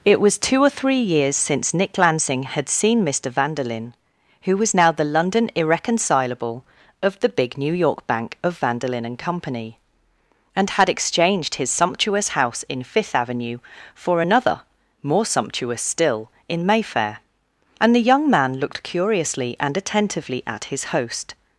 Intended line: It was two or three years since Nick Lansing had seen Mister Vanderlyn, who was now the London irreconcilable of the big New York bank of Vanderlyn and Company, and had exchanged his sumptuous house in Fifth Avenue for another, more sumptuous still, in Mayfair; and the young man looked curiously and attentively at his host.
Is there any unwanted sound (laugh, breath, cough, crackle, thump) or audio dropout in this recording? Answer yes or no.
no